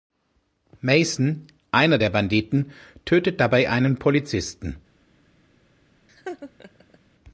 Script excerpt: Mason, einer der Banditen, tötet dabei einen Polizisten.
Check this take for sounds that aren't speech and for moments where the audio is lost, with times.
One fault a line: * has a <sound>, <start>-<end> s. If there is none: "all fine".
* has a laugh, 6.1-7.0 s